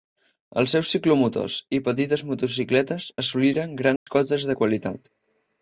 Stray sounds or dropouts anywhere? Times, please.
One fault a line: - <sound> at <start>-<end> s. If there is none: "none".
- dropout at 4.0-4.1 s